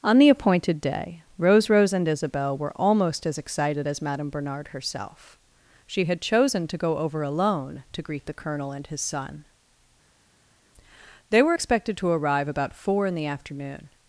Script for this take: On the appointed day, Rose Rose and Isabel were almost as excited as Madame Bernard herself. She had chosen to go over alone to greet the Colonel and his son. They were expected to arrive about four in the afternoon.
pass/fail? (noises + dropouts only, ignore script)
pass